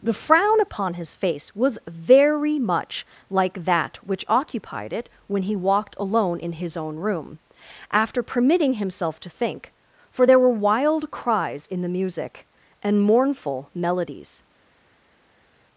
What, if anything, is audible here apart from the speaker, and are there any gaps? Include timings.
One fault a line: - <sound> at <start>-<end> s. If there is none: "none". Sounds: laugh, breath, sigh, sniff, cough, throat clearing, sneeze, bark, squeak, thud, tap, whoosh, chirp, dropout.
none